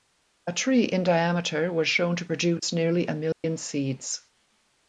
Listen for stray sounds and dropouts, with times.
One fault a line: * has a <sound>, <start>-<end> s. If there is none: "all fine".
* has a dropout, 3.3-3.4 s